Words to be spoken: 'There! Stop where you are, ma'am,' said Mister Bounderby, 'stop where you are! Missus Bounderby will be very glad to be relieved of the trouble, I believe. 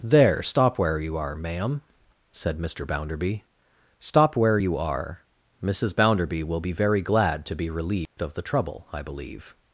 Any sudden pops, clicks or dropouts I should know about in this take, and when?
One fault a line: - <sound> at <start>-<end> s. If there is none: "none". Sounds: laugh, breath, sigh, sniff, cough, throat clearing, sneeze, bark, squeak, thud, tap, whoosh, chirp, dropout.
- dropout at 8.1-8.2 s